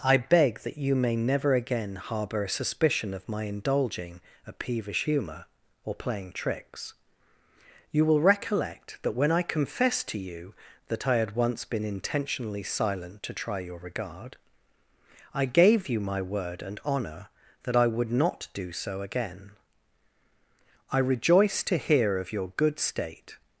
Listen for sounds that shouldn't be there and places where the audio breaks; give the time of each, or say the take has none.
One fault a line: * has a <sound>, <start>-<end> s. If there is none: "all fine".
all fine